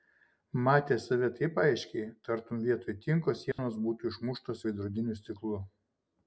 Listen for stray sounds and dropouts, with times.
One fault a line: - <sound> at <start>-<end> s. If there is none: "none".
- dropout at 3.5-3.6 s